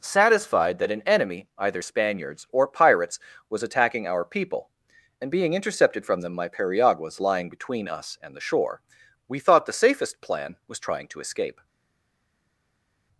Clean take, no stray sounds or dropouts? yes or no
yes